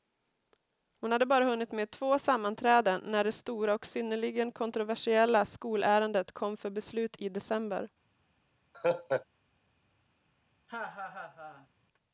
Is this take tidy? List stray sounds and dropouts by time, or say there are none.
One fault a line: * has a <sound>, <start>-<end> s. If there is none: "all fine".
* has a laugh, 8.7-9.3 s
* has a laugh, 10.7-11.7 s